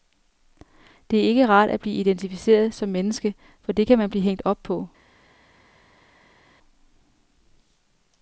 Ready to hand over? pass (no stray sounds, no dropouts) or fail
pass